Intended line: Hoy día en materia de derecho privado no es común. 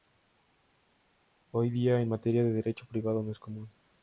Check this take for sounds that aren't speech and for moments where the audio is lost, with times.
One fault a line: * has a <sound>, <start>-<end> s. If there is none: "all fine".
all fine